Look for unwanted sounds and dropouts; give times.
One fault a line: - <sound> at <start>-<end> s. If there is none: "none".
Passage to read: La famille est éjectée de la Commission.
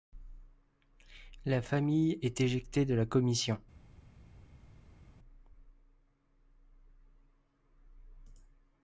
none